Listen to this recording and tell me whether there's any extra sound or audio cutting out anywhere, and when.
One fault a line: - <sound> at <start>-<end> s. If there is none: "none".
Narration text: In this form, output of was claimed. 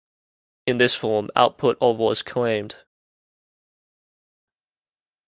none